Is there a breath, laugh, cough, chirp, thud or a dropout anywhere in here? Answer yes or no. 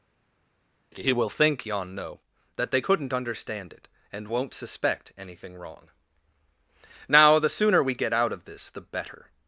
no